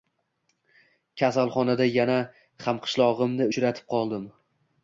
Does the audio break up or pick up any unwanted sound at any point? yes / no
no